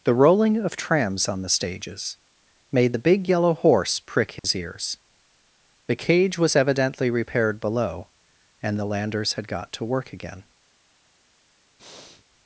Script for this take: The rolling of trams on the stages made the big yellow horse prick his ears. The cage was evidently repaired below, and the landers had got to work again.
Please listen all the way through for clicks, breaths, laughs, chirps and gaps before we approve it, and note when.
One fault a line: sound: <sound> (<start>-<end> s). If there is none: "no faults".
sound: dropout (4.4-4.4 s)
sound: breath (11.8-12.2 s)